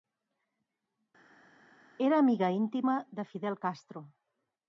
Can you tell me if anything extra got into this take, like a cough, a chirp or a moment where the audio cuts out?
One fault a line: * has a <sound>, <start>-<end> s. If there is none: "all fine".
all fine